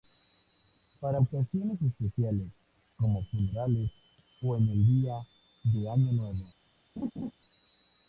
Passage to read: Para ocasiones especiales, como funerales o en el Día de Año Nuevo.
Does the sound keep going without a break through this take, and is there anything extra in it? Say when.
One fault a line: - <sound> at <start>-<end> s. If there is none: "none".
- laugh at 7.0-7.3 s